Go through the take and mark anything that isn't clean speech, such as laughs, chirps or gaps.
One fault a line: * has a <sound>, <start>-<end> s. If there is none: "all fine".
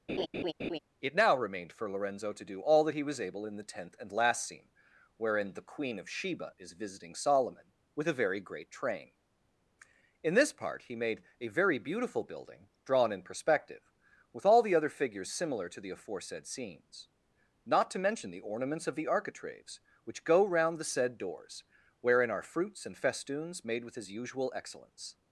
* has a laugh, 0.1-0.8 s